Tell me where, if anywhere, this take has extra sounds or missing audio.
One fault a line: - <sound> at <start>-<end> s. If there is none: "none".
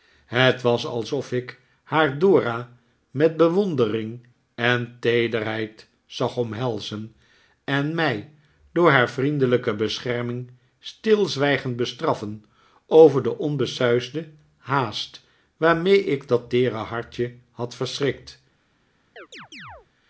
- chirp at 19.2-19.9 s